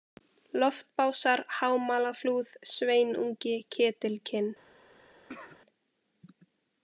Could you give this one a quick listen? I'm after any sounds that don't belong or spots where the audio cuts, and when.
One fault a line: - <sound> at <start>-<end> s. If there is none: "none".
- cough at 5.3-5.6 s